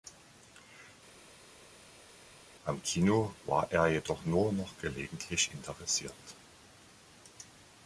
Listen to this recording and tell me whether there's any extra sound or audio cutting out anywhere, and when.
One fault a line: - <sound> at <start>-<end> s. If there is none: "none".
none